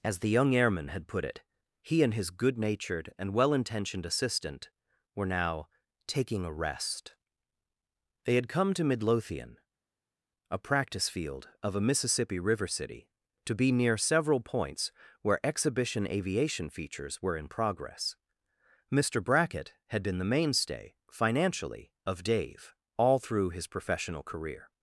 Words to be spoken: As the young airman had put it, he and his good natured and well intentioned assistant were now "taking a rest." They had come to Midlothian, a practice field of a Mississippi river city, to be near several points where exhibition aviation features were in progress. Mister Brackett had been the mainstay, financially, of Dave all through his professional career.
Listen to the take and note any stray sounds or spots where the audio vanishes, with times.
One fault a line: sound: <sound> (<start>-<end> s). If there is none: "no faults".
no faults